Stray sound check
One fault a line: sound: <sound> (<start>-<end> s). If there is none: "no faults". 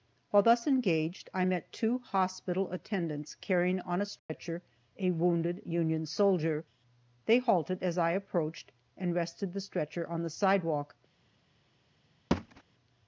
sound: dropout (4.2-4.3 s)
sound: thud (12.3-12.6 s)